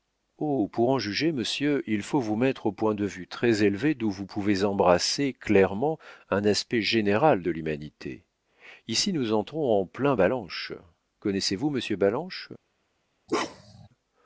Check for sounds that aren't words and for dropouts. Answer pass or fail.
fail